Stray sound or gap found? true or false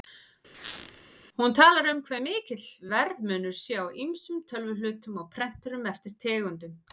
true